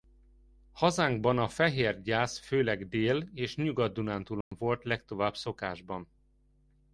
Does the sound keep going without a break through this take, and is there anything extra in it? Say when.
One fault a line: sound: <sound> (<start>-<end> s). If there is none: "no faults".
sound: dropout (4.4-4.5 s)